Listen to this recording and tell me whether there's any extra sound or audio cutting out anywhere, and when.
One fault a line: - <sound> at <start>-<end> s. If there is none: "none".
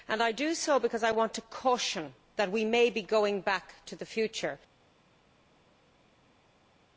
none